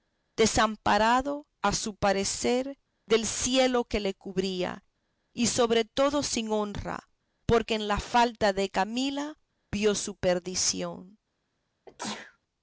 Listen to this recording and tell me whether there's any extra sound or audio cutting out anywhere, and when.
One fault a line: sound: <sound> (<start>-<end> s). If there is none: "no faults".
sound: sneeze (11.9-12.4 s)